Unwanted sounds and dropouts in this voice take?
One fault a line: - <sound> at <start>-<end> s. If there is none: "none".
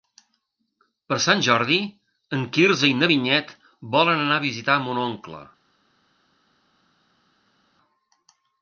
none